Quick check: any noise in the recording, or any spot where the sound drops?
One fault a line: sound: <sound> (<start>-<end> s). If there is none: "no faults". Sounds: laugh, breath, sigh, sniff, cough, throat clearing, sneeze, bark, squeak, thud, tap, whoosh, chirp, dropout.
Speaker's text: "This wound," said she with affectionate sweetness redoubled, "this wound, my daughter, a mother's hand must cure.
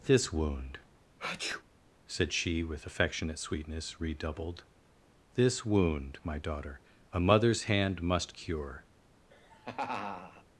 sound: sneeze (1.2-1.6 s)
sound: laugh (9.3-10.4 s)